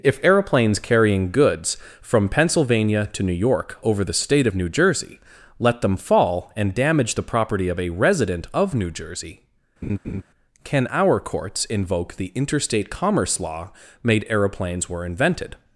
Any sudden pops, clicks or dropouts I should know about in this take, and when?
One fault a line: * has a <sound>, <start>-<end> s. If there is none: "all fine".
* has a laugh, 9.8-10.2 s